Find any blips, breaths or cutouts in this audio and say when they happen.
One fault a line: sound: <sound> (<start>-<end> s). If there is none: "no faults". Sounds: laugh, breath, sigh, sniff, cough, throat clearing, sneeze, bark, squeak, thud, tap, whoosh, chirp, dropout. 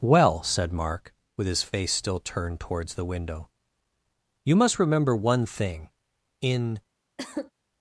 sound: cough (7.2-7.5 s)